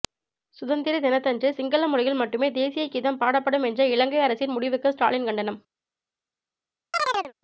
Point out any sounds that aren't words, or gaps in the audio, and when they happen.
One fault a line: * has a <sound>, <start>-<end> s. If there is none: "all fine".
* has a chirp, 6.9-7.3 s